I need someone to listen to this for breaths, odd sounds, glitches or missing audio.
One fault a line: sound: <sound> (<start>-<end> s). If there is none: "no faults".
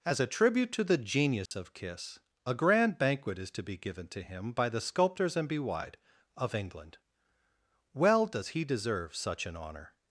sound: dropout (1.5-1.5 s)